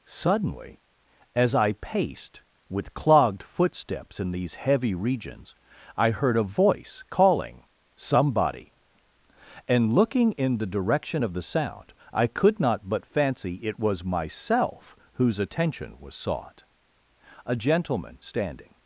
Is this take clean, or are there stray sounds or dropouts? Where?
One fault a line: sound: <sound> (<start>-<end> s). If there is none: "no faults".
no faults